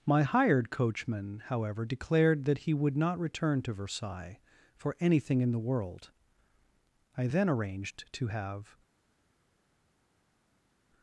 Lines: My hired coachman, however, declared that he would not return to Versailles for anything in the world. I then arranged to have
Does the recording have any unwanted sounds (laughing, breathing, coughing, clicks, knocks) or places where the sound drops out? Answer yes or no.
no